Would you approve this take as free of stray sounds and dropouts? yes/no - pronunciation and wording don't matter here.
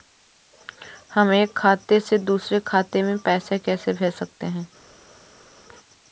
yes